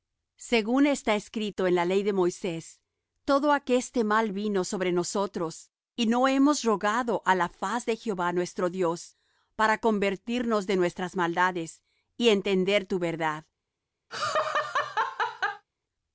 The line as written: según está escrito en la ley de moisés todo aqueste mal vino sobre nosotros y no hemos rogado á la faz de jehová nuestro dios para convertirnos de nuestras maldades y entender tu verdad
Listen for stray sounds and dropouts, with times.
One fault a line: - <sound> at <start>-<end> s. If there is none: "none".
- laugh at 14.1-15.6 s